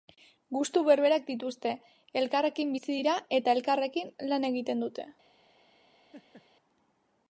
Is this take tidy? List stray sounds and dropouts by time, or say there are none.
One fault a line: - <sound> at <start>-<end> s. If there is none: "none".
- laugh at 6.1-6.5 s